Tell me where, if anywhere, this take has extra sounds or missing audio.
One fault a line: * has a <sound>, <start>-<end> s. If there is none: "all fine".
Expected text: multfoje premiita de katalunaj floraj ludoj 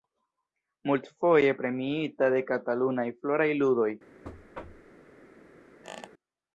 * has a thud, 4.2-4.9 s
* has a squeak, 5.8-6.1 s